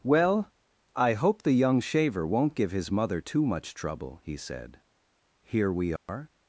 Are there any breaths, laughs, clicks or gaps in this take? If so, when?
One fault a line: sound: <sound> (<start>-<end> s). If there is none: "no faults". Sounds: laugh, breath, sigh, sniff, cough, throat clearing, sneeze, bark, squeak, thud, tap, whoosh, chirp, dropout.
sound: dropout (6.0-6.1 s)